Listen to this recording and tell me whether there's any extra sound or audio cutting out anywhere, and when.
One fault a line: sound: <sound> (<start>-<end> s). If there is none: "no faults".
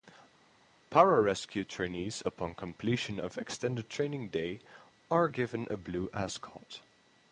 no faults